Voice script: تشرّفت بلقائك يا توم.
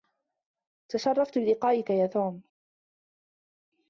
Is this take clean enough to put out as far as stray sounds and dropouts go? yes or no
yes